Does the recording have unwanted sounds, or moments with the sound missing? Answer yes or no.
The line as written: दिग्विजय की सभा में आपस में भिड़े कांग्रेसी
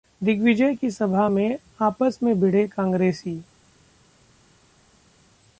no